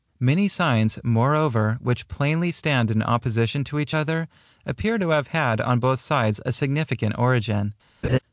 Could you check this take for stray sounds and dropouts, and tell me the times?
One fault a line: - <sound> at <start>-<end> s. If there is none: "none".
- laugh at 8.0-8.2 s